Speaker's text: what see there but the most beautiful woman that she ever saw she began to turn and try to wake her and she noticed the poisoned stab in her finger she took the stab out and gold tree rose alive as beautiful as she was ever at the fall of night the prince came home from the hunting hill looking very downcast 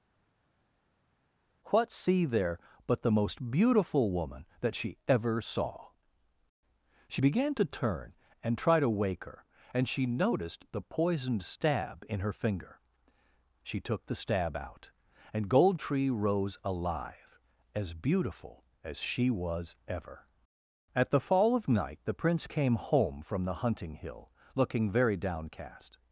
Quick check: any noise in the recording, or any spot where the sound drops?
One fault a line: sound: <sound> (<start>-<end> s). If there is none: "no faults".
no faults